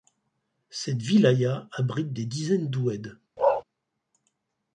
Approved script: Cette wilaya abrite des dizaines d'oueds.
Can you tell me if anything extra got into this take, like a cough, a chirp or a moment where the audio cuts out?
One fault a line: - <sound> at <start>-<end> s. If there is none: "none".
- bark at 3.4-3.6 s